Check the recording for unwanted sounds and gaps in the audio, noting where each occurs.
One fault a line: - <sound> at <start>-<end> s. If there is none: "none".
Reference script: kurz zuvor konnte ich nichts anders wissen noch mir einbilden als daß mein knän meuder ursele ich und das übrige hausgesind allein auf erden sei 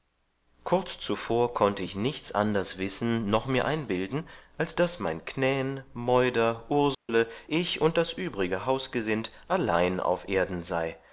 - dropout at 6.9-7.1 s